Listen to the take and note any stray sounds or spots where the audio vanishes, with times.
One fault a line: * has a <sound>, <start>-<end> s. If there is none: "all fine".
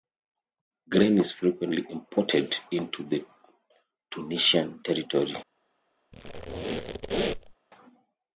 * has a squeak, 6.1-7.5 s